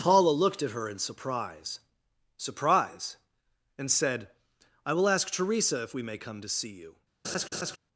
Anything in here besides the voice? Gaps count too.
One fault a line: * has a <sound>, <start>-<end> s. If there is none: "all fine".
* has a laugh, 7.2-7.8 s